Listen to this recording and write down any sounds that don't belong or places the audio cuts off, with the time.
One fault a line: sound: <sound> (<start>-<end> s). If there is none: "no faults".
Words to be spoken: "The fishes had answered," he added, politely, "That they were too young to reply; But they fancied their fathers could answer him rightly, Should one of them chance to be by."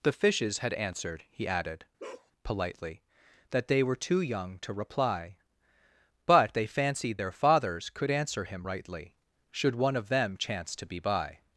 sound: bark (2.0-2.3 s)